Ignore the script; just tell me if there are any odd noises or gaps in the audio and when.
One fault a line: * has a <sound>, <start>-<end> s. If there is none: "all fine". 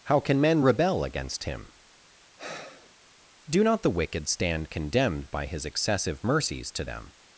* has a sigh, 2.4-2.9 s